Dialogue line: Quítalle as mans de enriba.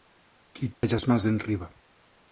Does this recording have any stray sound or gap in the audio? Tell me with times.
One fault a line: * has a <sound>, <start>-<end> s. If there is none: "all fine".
* has a dropout, 0.7-0.8 s